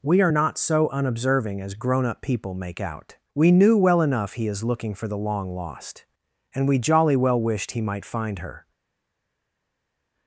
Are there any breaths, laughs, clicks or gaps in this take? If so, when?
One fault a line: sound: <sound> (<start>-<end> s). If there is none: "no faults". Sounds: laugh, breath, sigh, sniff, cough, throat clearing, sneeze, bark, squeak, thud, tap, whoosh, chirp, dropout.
no faults